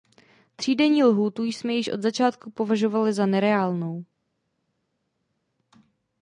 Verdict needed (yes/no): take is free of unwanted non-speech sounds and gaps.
yes